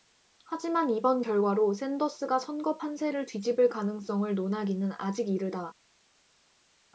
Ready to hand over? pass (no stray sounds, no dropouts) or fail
pass